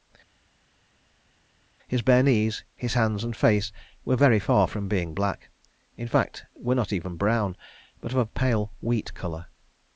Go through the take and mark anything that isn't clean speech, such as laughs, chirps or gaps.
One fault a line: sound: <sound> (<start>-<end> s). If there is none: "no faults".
no faults